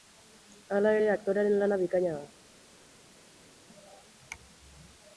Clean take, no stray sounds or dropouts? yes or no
yes